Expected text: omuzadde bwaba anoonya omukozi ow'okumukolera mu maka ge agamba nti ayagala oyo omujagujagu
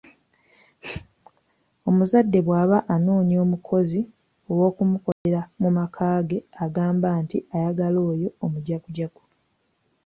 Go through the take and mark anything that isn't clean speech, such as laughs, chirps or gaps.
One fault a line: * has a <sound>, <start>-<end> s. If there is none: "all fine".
* has a dropout, 5.1-5.3 s